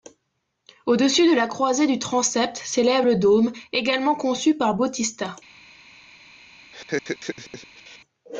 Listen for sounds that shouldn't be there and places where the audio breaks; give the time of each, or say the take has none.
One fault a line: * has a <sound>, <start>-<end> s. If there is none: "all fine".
* has a laugh, 6.7-8.0 s